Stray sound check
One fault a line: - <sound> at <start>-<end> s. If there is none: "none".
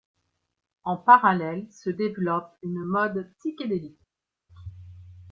none